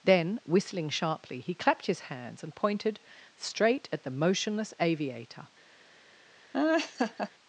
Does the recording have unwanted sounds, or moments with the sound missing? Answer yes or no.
yes